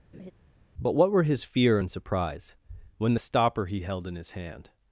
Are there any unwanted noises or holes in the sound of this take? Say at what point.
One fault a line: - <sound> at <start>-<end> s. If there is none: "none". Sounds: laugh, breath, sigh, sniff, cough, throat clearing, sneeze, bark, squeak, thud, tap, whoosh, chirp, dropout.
- laugh at 0.1-0.3 s